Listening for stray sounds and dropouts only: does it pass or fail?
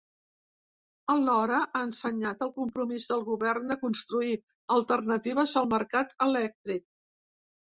pass